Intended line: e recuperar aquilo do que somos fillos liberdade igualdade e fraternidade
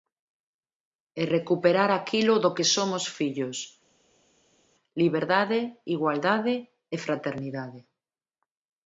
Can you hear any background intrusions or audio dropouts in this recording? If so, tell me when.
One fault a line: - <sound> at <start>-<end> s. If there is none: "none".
none